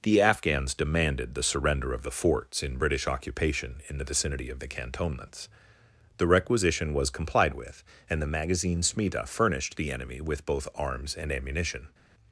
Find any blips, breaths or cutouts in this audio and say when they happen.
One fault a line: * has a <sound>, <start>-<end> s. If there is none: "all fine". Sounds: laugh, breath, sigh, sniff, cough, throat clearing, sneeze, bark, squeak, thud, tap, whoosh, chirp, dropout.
all fine